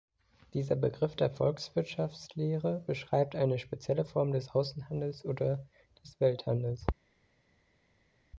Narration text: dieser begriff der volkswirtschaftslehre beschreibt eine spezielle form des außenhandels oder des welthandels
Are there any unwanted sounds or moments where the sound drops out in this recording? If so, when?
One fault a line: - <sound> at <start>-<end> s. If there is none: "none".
none